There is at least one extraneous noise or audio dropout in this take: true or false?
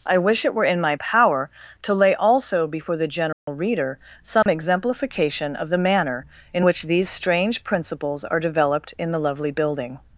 true